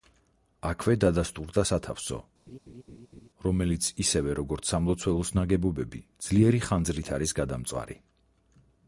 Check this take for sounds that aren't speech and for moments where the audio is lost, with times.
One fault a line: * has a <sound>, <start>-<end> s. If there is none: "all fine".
* has a laugh, 2.5-3.3 s